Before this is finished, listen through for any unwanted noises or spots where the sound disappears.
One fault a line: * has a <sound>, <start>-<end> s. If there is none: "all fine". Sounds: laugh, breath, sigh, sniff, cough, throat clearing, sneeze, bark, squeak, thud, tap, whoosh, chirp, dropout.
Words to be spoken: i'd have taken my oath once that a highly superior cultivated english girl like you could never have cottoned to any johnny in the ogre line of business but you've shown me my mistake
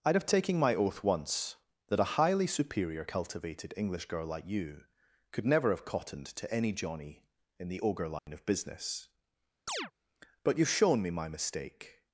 * has a dropout, 8.2-8.3 s
* has a chirp, 9.7-9.9 s